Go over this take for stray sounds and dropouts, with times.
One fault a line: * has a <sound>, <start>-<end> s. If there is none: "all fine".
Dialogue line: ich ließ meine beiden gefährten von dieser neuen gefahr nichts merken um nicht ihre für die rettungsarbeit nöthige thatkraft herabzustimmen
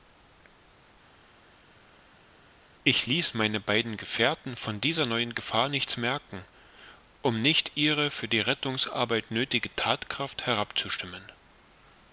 all fine